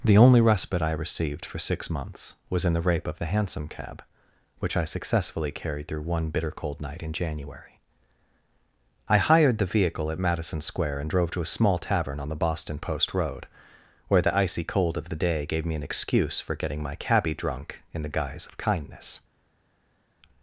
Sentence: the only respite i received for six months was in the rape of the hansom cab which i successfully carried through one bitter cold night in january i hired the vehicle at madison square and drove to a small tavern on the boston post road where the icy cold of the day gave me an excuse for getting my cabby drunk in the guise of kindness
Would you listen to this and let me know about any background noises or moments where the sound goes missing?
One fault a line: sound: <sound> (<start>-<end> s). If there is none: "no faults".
no faults